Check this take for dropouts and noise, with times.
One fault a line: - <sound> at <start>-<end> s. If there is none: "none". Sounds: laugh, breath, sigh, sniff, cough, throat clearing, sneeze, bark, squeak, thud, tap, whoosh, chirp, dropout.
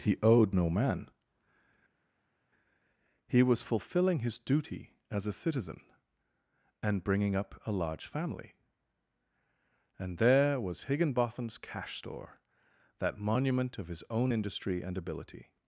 none